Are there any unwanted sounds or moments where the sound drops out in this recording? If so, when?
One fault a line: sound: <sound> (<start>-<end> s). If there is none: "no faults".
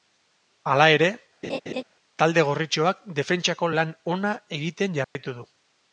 sound: laugh (1.4-1.8 s)
sound: dropout (5.0-5.2 s)